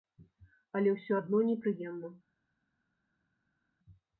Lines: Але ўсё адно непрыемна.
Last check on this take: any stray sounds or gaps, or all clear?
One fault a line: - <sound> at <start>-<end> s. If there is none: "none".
none